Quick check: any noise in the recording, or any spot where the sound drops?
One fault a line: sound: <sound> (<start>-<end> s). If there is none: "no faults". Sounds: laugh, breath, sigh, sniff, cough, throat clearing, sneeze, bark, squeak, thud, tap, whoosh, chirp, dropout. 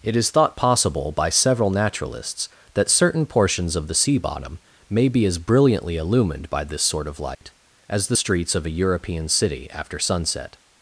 sound: dropout (7.3-7.4 s)